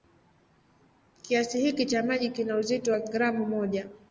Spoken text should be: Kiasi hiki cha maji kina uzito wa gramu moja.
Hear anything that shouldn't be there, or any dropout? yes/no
no